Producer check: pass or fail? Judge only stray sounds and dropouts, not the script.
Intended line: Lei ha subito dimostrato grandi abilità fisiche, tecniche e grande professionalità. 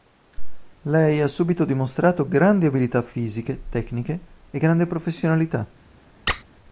fail